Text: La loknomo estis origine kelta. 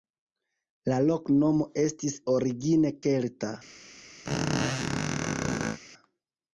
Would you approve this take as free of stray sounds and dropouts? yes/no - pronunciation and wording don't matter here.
no